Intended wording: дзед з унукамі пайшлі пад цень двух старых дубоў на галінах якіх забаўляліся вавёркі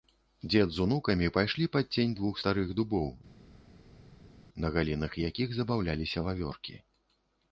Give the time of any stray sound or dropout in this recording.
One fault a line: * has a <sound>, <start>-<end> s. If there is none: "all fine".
all fine